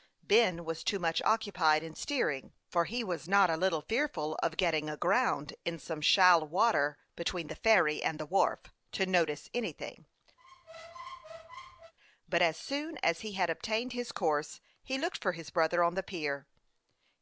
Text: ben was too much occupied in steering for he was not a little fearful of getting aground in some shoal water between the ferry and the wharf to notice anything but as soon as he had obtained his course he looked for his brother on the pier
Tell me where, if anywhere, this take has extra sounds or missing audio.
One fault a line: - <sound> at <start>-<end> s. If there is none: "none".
- squeak at 10.4-11.9 s